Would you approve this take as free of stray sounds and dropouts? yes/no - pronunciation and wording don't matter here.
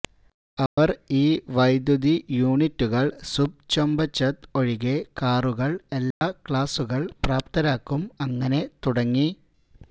no